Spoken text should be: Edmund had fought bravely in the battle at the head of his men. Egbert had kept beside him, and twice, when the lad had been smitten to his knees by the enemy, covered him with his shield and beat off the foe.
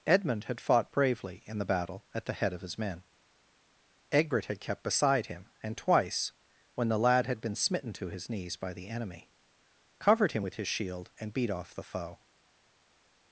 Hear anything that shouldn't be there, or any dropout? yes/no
no